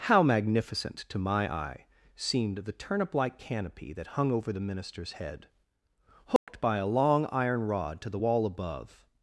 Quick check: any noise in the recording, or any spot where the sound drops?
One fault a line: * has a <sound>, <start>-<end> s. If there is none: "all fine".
* has a dropout, 6.4-6.5 s